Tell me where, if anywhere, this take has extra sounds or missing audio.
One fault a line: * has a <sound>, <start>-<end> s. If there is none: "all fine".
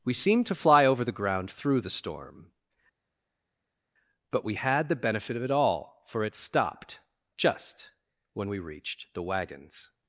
all fine